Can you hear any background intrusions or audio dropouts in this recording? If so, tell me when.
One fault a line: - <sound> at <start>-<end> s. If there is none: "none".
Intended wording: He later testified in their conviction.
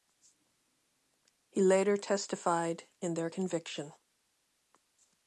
none